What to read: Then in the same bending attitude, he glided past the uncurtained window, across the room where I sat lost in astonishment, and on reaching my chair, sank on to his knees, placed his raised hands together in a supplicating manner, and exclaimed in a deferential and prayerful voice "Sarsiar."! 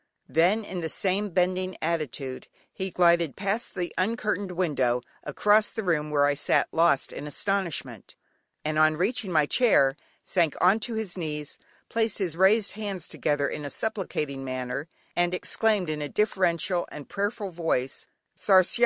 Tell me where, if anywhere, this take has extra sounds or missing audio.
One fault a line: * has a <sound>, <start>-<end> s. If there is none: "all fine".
all fine